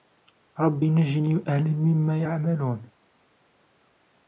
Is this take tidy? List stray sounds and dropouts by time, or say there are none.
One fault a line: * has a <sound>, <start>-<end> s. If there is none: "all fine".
all fine